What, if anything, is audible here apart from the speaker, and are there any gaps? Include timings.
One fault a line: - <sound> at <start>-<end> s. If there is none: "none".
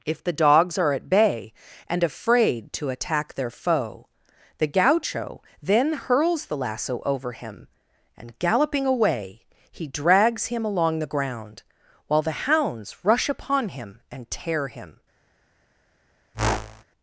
- whoosh at 16.3-16.8 s